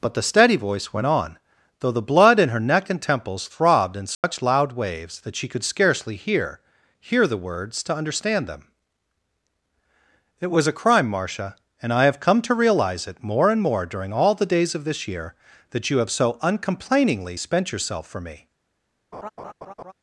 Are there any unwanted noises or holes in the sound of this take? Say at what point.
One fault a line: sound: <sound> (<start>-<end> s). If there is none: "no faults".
sound: dropout (4.1-4.2 s)
sound: laugh (19.1-19.9 s)